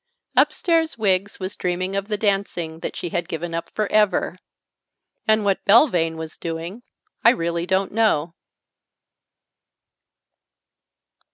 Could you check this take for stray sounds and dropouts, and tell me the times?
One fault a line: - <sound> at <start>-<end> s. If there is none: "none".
none